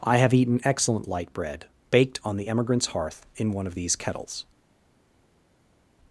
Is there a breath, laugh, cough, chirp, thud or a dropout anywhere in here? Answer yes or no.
no